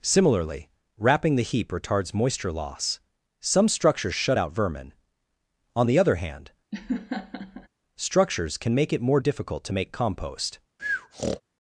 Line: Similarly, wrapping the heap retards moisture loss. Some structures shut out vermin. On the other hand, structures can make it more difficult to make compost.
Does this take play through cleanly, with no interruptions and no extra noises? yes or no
no